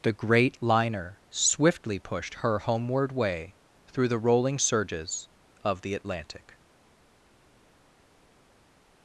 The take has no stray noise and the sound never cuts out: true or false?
true